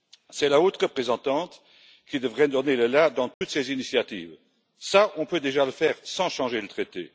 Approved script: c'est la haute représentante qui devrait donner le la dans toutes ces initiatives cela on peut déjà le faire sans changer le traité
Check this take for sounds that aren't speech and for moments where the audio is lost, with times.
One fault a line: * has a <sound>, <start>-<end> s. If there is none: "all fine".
* has a dropout, 3.3-3.4 s